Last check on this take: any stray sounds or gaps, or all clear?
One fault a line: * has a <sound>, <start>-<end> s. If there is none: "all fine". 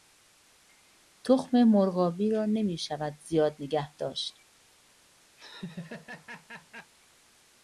* has a laugh, 5.4-6.9 s